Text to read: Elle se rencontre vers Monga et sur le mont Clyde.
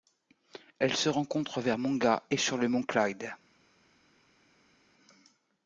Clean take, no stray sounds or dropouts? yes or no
yes